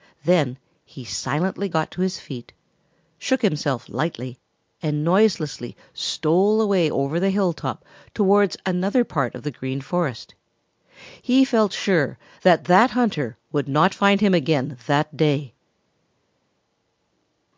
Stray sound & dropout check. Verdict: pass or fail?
pass